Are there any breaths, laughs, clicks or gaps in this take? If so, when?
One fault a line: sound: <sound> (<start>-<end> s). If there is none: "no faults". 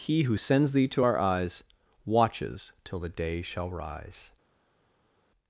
no faults